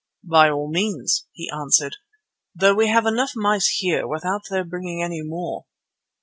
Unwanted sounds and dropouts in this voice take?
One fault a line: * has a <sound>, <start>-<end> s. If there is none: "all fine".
all fine